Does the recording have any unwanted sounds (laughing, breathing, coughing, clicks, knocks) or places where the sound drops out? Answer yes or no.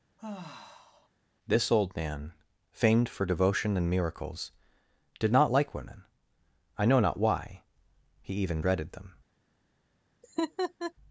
yes